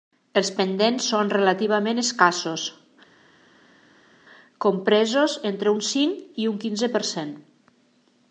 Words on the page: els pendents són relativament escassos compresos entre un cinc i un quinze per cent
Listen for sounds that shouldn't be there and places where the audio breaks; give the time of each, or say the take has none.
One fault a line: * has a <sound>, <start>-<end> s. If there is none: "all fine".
all fine